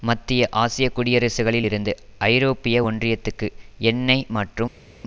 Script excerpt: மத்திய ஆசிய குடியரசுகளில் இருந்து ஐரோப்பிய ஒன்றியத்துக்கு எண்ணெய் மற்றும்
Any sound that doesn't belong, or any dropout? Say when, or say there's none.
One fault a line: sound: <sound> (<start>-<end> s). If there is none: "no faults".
no faults